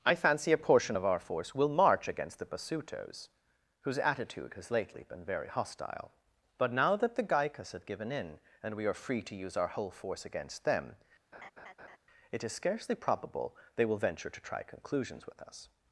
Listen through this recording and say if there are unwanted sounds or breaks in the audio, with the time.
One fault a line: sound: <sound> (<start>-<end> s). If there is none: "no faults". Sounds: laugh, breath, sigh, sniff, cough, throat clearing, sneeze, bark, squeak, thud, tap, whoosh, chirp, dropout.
sound: laugh (11.3-12.0 s)